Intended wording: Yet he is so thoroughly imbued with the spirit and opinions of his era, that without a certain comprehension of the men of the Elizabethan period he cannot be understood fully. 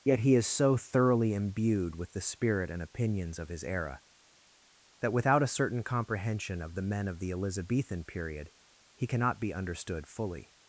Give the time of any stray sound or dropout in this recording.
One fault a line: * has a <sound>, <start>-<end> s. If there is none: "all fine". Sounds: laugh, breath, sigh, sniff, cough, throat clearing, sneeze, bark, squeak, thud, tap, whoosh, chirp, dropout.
all fine